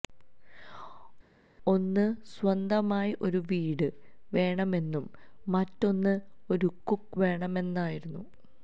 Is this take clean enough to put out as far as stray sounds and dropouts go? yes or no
yes